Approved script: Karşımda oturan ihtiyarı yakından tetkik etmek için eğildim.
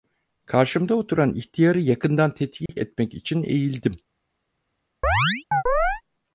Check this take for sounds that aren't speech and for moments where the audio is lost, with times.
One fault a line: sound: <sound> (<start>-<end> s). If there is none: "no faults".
sound: dropout (2.7-2.7 s)
sound: chirp (5.0-6.0 s)